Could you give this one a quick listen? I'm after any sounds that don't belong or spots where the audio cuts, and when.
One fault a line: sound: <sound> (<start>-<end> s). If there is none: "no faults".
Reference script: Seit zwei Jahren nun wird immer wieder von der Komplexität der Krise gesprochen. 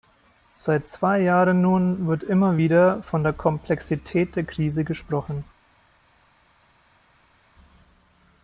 no faults